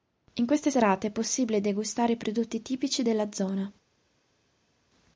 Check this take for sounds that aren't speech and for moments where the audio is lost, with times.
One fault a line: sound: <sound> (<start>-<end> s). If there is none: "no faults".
no faults